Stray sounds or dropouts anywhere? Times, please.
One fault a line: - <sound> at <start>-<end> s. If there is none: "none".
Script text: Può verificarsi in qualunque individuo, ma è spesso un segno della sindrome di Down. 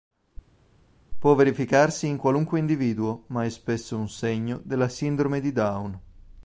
none